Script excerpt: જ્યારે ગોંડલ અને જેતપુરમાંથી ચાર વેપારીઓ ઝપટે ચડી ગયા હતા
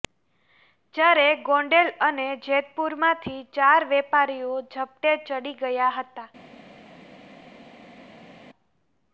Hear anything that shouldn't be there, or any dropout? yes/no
no